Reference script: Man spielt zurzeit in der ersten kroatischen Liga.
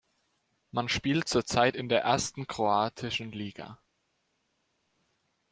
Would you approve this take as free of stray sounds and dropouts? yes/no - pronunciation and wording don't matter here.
yes